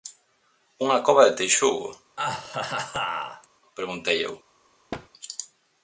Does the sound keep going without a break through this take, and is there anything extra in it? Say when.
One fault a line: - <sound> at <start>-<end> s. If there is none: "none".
- laugh at 2.2-3.5 s
- thud at 4.9-5.1 s